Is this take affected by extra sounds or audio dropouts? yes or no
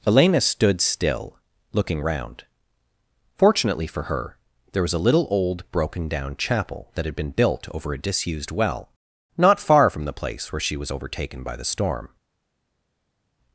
no